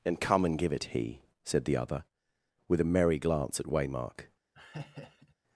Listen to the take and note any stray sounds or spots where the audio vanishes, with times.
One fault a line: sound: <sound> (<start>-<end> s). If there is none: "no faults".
sound: laugh (4.5-5.3 s)